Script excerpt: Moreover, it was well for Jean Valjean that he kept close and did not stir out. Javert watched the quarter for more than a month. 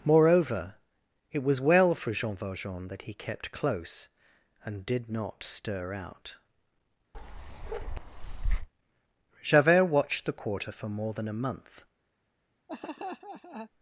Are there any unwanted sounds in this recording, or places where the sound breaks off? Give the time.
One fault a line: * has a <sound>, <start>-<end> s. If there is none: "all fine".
* has a bark, 7.1-8.7 s
* has a laugh, 12.7-13.7 s